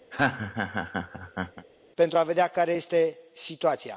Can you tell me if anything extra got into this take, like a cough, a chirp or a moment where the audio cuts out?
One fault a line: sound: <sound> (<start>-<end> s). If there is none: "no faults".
sound: laugh (0.1-1.7 s)